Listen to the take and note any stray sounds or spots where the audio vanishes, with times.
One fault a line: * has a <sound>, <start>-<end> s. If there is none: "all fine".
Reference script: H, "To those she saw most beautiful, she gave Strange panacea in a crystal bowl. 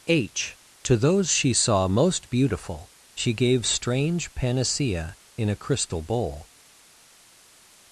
all fine